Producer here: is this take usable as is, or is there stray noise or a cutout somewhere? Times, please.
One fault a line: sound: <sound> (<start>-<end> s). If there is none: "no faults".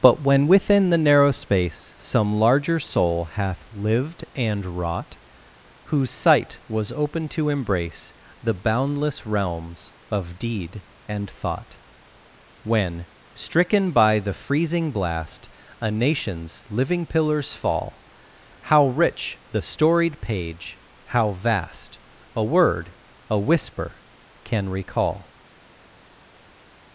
no faults